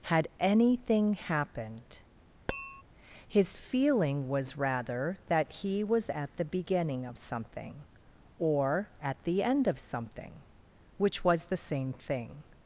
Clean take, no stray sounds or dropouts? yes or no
no